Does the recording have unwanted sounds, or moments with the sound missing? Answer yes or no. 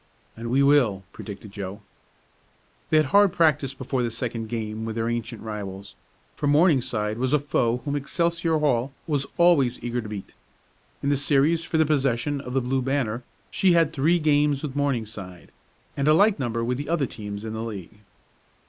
no